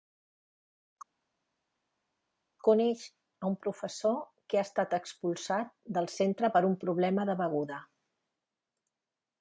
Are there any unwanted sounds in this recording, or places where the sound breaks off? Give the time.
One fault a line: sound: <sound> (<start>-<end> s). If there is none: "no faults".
no faults